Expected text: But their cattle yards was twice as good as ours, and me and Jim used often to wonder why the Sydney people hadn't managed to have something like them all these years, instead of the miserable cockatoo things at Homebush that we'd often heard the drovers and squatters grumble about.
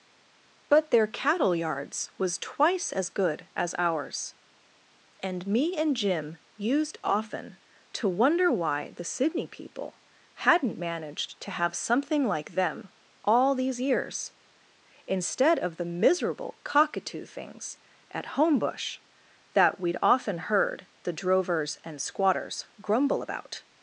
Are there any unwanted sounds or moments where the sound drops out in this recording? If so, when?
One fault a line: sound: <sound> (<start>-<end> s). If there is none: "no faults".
no faults